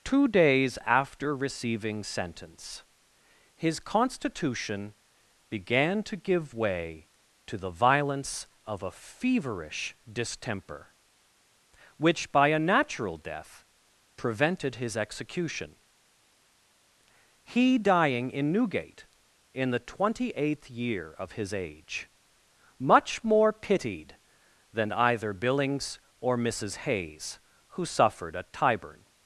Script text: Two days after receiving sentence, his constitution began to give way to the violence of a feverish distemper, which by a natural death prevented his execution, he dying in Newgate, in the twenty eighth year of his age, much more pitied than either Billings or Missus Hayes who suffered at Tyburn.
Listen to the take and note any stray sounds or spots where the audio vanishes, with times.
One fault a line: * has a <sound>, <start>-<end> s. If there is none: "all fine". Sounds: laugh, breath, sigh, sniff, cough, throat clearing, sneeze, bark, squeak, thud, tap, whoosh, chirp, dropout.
all fine